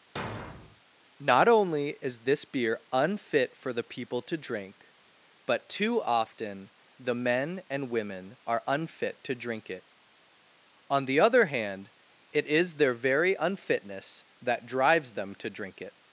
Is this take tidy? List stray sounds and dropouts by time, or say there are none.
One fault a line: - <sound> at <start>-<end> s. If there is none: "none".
- thud at 0.2-0.8 s